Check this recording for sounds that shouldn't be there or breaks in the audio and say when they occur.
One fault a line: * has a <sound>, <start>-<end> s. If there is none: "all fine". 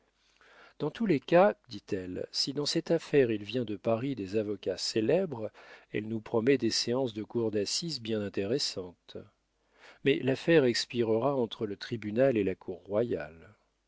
all fine